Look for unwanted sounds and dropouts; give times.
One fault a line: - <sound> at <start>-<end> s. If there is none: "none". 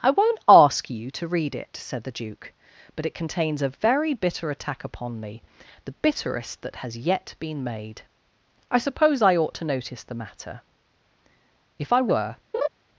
- laugh at 12.5-12.7 s